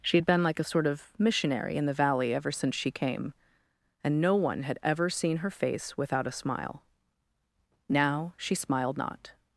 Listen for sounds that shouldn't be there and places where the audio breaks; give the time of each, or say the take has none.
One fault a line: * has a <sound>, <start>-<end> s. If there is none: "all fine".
all fine